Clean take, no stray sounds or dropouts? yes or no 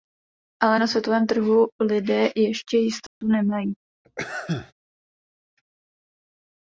no